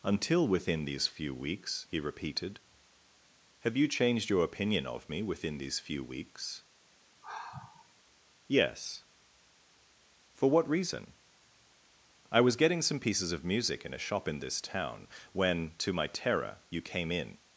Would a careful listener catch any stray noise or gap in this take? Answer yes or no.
yes